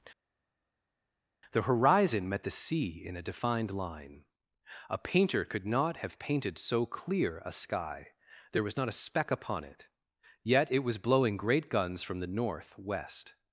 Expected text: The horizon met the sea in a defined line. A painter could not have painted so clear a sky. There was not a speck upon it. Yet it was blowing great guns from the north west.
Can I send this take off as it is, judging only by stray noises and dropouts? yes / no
yes